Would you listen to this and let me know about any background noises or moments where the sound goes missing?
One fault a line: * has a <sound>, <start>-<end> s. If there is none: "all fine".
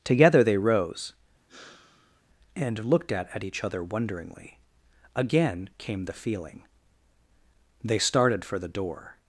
* has a sigh, 1.5-2.2 s